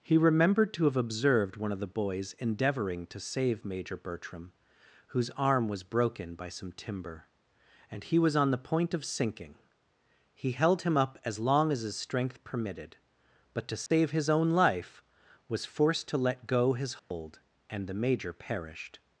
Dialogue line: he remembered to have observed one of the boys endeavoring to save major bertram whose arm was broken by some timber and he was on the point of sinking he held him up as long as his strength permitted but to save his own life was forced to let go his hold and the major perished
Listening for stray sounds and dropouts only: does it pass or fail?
fail